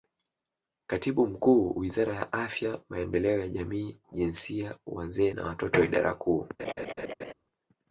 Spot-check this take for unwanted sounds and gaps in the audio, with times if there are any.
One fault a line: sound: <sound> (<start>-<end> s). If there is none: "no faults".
sound: laugh (6.6-7.3 s)